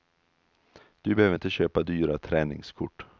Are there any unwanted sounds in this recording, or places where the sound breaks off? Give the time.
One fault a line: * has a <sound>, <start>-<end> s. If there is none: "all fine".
all fine